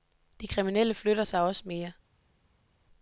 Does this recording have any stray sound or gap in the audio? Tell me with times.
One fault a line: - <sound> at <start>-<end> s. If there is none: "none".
none